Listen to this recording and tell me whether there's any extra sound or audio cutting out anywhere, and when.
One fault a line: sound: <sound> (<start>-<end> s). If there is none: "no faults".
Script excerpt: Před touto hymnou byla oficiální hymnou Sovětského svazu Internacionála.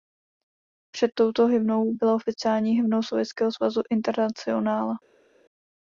no faults